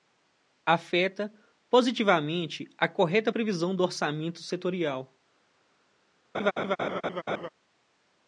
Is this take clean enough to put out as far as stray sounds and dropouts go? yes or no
no